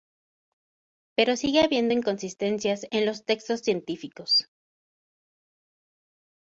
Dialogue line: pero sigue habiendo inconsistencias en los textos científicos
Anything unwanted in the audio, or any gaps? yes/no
no